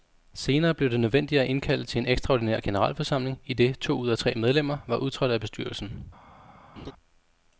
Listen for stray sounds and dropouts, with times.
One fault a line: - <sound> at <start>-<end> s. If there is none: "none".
- laugh at 6.8-6.9 s